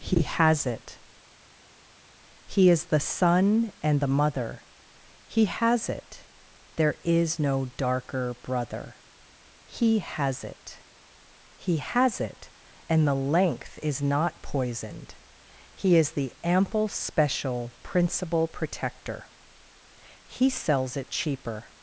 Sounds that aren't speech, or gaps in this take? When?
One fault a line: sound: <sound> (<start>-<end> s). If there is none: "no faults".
no faults